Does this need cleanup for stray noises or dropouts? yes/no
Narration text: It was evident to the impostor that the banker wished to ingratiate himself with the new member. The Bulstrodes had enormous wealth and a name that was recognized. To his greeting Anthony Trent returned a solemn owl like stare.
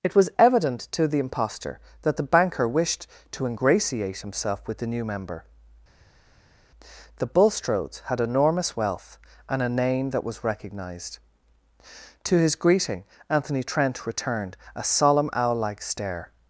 no